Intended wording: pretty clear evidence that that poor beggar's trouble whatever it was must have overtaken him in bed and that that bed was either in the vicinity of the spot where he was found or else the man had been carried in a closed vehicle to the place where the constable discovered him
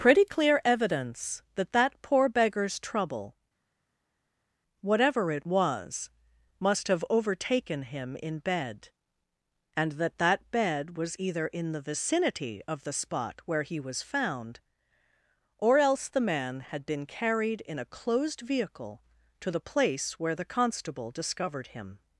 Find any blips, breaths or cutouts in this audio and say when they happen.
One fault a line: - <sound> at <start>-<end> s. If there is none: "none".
none